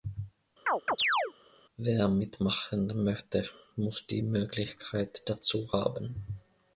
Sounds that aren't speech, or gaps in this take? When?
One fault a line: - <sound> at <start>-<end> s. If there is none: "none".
- chirp at 0.7-1.3 s